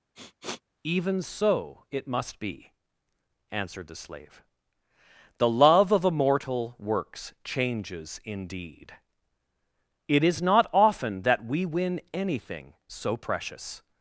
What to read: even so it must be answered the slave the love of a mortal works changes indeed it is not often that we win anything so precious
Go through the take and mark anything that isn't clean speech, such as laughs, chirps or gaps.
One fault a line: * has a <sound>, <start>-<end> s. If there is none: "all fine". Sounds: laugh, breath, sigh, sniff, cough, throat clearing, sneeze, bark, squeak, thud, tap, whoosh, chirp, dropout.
* has a sniff, 0.1-0.6 s